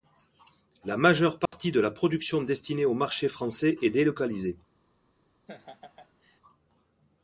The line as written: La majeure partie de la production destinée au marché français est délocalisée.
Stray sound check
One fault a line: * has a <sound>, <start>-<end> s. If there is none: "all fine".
* has a dropout, 1.5-1.5 s
* has a laugh, 5.5-6.4 s